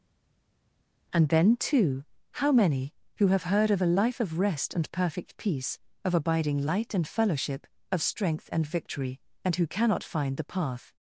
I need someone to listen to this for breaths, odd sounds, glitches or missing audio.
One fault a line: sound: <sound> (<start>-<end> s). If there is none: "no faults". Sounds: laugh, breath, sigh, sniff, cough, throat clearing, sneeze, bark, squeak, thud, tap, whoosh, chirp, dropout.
no faults